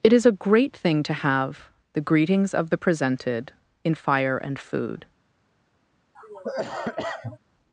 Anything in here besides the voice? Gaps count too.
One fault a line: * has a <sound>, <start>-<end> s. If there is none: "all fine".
* has a cough, 6.1-7.4 s